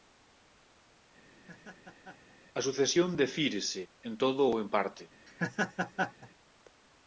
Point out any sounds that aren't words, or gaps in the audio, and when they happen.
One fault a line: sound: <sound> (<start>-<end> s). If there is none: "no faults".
sound: laugh (1.3-2.4 s)
sound: laugh (5.3-6.3 s)